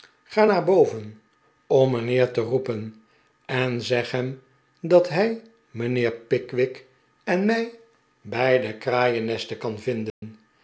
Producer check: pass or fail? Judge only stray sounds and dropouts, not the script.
fail